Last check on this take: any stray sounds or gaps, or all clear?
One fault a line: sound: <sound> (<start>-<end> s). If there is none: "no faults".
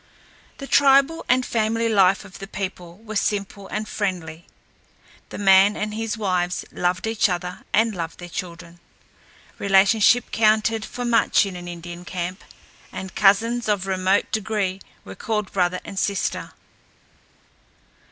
no faults